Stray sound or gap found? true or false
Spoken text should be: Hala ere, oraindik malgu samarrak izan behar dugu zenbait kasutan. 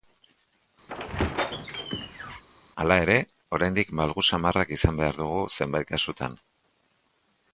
true